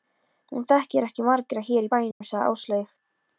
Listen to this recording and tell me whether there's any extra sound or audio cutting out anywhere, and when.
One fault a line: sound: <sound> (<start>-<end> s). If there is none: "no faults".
sound: dropout (2.1-2.2 s)